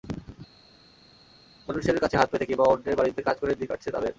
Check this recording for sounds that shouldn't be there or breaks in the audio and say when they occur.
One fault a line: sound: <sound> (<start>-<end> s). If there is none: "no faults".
no faults